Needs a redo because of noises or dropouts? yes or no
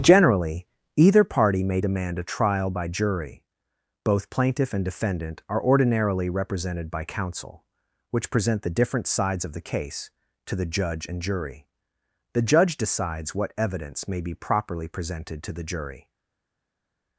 no